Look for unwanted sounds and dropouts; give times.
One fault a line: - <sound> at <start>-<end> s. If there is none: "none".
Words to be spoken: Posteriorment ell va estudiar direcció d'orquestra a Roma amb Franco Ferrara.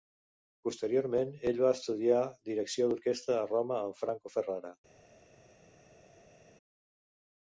none